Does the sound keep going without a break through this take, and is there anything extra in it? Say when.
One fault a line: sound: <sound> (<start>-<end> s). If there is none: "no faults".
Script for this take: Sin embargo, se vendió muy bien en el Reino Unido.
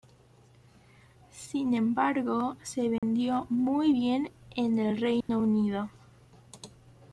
sound: dropout (3.0-3.0 s)
sound: dropout (5.2-5.3 s)